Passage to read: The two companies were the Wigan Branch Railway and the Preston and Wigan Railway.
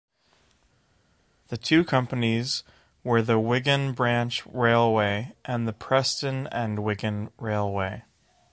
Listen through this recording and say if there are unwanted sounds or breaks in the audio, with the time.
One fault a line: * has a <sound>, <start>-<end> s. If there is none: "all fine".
all fine